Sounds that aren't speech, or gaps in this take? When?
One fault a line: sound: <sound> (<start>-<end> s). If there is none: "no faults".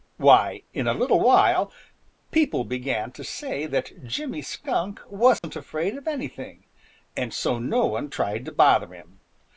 sound: dropout (5.4-5.4 s)